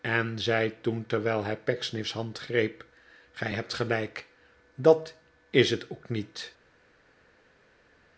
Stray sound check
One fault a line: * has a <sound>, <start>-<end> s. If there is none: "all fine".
all fine